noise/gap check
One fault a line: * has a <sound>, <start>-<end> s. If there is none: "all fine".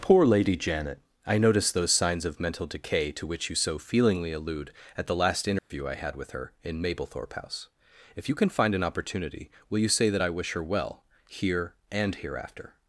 * has a dropout, 5.6-5.7 s